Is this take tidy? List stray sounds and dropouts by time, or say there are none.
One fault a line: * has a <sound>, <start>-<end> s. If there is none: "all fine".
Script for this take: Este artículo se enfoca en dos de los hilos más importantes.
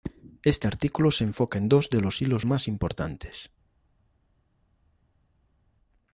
all fine